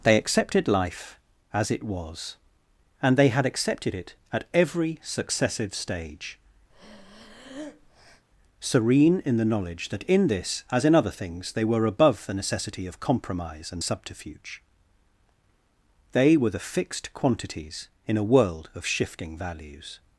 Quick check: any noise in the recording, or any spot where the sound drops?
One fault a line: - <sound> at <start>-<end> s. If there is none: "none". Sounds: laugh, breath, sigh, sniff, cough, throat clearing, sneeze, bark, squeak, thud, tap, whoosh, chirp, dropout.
- breath at 6.7-8.2 s